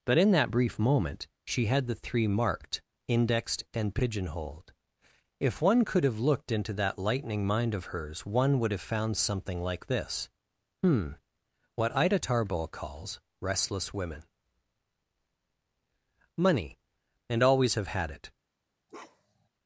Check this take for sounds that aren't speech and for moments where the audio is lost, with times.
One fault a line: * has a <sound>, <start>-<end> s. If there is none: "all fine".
* has a bark, 18.9-19.5 s